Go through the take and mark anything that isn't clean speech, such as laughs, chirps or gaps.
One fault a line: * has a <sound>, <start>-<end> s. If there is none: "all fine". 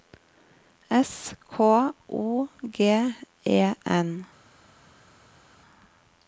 all fine